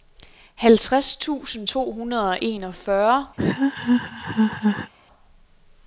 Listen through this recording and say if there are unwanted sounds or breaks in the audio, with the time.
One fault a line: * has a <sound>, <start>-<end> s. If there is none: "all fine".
* has a laugh, 3.4-4.9 s